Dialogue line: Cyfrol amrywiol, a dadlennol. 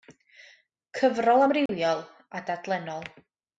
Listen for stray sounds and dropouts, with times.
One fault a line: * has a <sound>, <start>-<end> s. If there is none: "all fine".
* has a dropout, 1.7-1.7 s